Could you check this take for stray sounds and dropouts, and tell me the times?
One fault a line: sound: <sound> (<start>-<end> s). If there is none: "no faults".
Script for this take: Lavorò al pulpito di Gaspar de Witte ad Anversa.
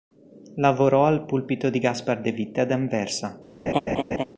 sound: laugh (3.7-4.2 s)